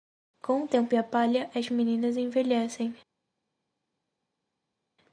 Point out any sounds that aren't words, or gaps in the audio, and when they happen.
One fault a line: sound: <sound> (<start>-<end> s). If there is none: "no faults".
no faults